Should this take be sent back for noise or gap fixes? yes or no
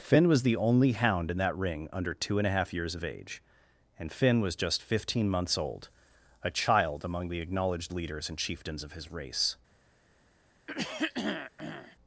yes